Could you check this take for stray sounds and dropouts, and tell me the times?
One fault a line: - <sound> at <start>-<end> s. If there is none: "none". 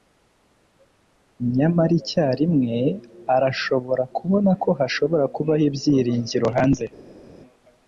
none